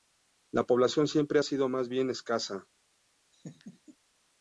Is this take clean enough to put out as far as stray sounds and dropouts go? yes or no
no